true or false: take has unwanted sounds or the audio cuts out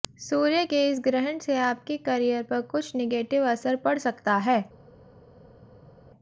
false